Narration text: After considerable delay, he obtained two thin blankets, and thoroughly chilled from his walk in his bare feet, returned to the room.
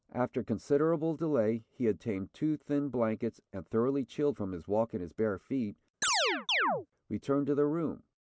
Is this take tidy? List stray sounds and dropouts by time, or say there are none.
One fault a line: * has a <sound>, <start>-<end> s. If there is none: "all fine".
* has a chirp, 6.0-6.9 s